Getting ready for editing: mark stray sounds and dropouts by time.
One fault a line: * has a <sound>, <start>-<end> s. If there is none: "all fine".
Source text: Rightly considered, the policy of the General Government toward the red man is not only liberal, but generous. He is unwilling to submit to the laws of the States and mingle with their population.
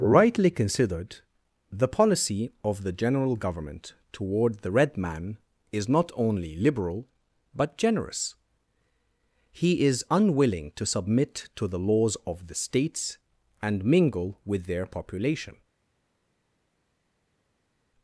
all fine